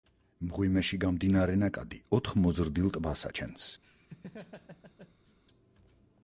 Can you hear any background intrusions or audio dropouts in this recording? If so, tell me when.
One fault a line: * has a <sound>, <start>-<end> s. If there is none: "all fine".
* has a laugh, 3.8-5.4 s